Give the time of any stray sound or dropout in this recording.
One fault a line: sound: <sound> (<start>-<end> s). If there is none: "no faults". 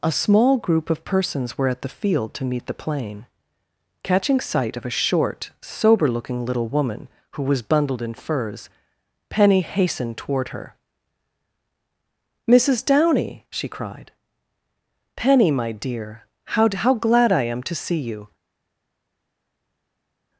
no faults